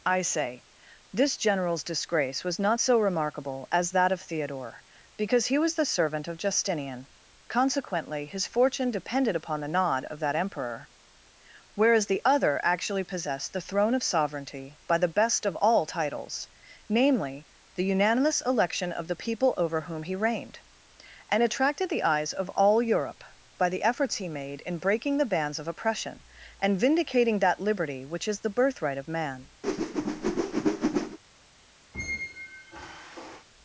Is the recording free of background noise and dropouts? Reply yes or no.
no